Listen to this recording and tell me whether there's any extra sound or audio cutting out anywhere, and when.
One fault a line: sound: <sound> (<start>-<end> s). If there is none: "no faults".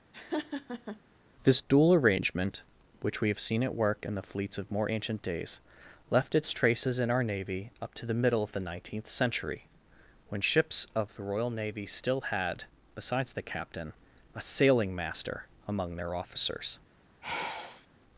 sound: laugh (0.1-1.0 s)
sound: sigh (17.2-17.9 s)